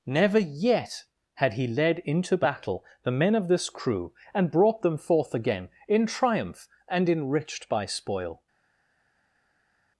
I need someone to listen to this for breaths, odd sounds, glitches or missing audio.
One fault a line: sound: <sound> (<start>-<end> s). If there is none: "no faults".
no faults